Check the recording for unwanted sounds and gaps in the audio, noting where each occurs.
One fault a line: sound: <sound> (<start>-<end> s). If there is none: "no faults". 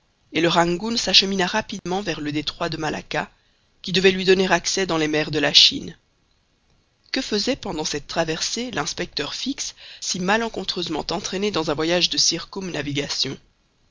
sound: dropout (1.8-1.9 s)